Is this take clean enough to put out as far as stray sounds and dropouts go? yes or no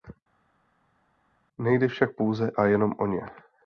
yes